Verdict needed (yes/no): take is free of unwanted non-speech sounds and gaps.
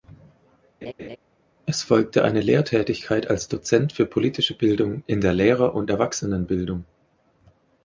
no